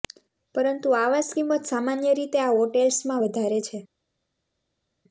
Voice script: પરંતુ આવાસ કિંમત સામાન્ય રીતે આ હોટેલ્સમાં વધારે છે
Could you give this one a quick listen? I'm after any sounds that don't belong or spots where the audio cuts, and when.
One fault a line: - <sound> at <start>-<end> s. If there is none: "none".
none